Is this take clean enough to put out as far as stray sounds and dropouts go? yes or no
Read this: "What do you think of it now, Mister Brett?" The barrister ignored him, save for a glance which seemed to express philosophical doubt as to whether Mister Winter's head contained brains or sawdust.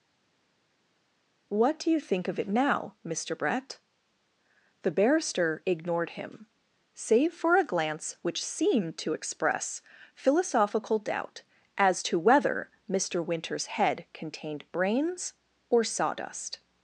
yes